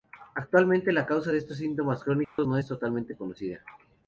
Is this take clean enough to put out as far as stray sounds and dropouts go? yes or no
no